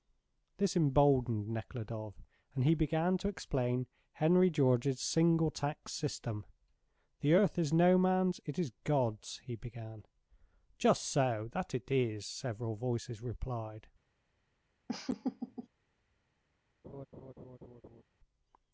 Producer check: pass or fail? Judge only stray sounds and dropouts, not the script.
fail